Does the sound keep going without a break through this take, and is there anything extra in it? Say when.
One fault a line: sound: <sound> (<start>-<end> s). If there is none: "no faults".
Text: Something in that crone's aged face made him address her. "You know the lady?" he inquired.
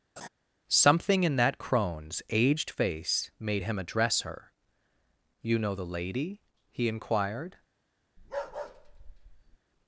sound: laugh (0.2-0.3 s)
sound: bark (8.2-9.6 s)